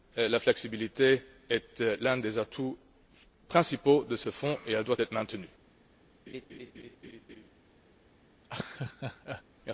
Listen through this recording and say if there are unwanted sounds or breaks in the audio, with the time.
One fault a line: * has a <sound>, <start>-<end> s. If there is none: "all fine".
* has a laugh, 6.3-7.5 s
* has a laugh, 8.4-9.4 s